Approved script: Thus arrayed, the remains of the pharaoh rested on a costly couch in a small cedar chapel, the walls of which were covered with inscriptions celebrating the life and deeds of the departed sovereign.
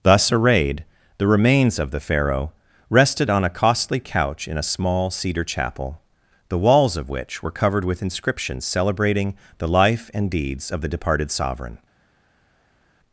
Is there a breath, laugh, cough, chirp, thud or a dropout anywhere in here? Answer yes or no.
no